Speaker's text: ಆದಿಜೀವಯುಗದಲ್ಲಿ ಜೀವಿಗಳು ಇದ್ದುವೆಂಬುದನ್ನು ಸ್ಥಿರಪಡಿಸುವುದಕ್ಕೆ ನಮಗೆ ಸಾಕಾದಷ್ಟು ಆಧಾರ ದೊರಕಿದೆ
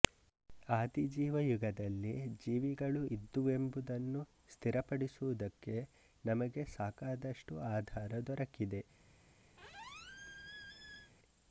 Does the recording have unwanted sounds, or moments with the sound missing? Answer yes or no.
yes